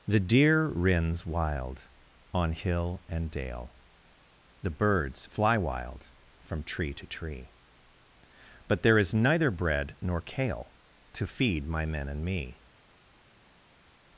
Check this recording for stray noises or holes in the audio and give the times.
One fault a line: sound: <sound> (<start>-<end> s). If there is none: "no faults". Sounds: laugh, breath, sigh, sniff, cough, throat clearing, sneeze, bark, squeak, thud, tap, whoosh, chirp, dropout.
no faults